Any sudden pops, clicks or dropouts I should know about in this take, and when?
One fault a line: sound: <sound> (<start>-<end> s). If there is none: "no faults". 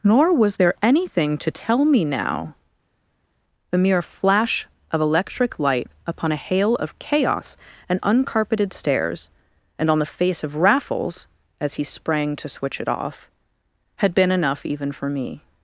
no faults